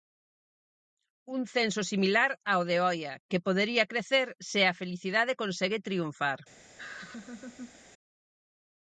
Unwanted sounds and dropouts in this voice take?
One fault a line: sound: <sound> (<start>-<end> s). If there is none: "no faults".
sound: laugh (6.8-7.8 s)